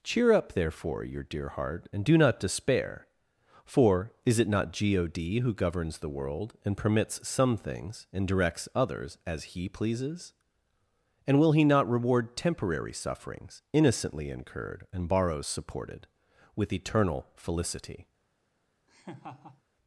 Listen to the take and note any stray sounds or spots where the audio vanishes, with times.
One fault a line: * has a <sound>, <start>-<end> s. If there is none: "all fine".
* has a laugh, 18.9-19.6 s